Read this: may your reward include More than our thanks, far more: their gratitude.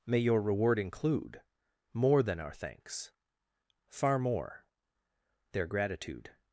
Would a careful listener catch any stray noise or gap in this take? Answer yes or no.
no